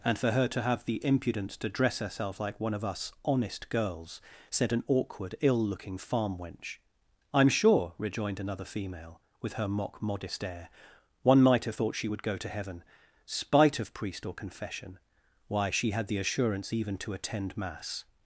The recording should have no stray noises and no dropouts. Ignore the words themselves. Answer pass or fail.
pass